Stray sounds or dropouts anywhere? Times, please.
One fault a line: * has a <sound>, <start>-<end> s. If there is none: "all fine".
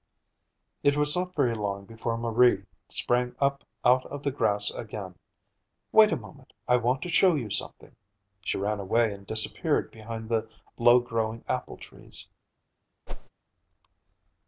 * has a whoosh, 13.1-13.3 s